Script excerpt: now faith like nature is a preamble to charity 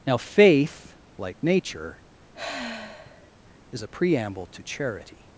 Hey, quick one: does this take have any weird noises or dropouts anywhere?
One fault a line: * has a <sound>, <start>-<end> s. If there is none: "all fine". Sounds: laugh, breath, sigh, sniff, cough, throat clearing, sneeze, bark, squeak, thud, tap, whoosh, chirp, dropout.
* has a sigh, 2.3-3.3 s